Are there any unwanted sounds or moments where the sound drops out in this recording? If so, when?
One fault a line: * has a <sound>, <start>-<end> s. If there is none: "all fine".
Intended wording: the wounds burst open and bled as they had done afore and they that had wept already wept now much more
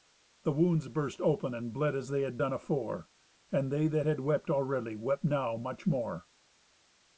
all fine